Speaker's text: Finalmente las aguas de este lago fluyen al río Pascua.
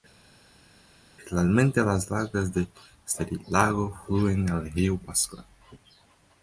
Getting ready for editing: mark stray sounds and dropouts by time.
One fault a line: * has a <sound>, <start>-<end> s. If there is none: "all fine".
all fine